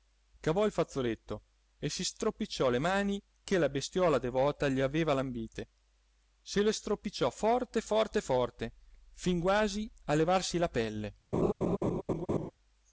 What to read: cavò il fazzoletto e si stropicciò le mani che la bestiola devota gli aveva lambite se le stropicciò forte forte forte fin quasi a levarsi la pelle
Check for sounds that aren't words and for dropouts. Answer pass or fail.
fail